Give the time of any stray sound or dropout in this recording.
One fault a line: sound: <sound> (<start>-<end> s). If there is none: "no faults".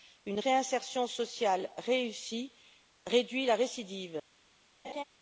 sound: laugh (4.8-5.0 s)